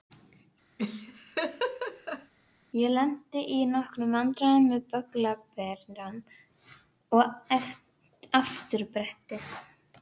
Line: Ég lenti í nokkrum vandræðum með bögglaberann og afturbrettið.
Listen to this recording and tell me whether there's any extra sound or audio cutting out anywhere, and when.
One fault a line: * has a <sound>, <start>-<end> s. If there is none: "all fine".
* has a laugh, 0.8-2.3 s